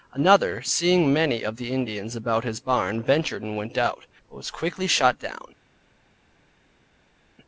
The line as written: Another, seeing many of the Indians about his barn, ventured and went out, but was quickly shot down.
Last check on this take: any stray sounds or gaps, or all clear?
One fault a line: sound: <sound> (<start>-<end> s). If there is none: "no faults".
no faults